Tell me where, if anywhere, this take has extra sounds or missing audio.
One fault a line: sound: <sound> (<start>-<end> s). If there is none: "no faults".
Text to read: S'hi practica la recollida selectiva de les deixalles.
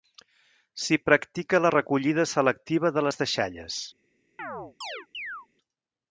sound: chirp (4.4-5.5 s)